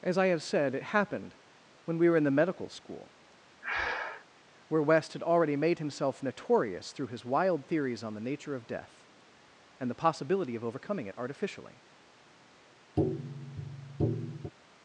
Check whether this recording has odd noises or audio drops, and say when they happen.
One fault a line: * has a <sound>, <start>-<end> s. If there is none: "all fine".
* has a breath, 3.6-4.3 s
* has a tap, 13.0-14.5 s